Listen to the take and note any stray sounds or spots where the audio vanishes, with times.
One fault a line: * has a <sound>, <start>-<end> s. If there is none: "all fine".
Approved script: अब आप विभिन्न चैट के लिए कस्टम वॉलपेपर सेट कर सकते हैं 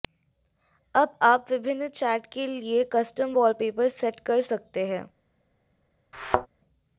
* has a thud, 6.1-6.5 s